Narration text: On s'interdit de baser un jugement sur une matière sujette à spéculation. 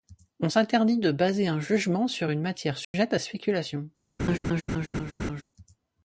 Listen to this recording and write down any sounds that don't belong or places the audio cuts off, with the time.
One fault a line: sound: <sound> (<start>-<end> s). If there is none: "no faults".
sound: dropout (2.8-2.9 s)
sound: laugh (4.2-5.4 s)